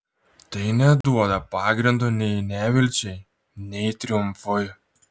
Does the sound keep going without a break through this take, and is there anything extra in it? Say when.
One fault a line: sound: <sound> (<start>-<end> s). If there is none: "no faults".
sound: dropout (1.0-1.0 s)